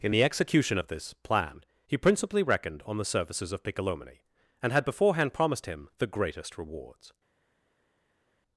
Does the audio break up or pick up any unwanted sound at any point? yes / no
no